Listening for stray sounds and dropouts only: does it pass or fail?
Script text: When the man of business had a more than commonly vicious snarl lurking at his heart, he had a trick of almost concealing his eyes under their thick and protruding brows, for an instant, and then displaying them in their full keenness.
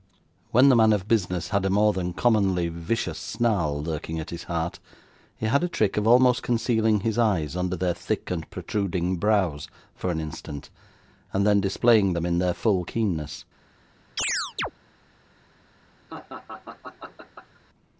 fail